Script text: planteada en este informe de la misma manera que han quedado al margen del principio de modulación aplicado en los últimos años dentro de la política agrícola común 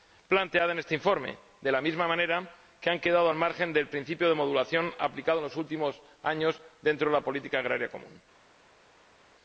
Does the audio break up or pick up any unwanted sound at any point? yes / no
no